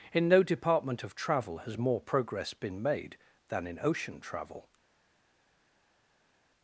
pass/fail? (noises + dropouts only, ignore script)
pass